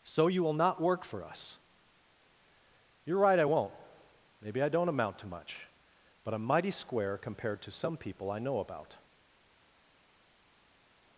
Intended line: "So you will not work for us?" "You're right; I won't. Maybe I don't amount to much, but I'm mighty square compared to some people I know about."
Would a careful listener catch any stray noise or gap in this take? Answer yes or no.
no